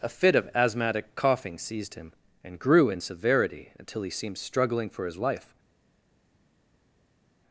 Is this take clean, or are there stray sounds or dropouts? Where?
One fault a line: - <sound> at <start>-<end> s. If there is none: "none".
none